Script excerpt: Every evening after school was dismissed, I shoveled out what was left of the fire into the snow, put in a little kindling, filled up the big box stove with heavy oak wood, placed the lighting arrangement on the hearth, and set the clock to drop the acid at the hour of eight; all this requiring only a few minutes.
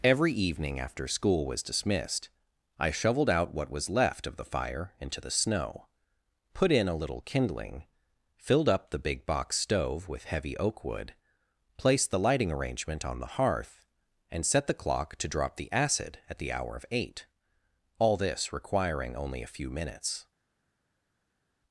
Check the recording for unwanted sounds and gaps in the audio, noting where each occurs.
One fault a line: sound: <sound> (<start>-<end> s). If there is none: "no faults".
no faults